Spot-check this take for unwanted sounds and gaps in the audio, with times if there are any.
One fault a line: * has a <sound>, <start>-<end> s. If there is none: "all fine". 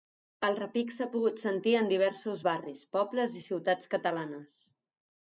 all fine